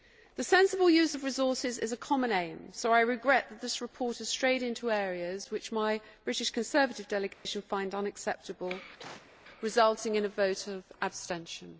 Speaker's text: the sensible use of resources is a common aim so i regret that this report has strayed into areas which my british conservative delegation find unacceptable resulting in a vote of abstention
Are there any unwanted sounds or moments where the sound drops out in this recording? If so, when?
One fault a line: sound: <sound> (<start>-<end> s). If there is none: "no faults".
sound: dropout (7.3-7.5 s)
sound: cough (9.0-9.3 s)